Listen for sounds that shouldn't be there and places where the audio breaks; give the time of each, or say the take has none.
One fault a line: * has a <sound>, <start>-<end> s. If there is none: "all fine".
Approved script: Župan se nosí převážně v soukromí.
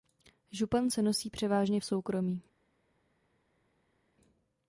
all fine